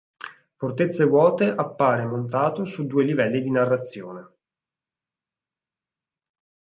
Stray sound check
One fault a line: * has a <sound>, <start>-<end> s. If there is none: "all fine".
all fine